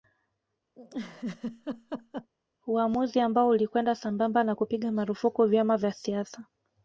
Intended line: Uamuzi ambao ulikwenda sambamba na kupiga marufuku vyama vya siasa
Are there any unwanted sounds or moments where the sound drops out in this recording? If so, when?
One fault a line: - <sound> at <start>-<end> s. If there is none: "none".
- laugh at 0.7-2.3 s